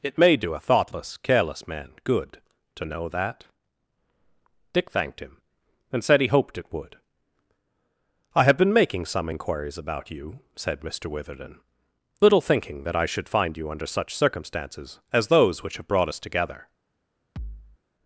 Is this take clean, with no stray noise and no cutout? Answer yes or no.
no